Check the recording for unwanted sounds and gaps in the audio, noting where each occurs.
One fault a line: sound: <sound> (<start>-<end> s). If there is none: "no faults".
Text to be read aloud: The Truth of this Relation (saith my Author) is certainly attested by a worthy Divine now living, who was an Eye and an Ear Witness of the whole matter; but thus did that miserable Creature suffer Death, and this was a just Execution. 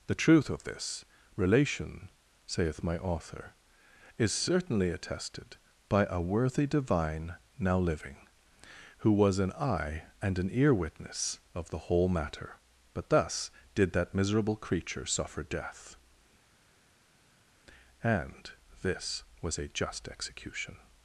no faults